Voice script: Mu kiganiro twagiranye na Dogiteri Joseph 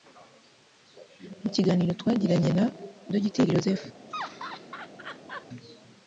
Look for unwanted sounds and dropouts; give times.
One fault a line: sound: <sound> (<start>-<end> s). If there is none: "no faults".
sound: laugh (4.1-5.5 s)